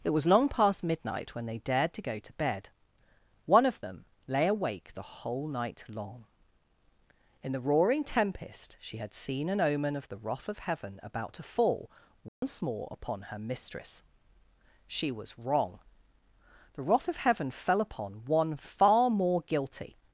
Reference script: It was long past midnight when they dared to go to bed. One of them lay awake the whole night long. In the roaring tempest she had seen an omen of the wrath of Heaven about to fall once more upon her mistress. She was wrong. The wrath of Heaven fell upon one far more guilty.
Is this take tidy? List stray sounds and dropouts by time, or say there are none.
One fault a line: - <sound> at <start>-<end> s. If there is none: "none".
- dropout at 12.3-12.4 s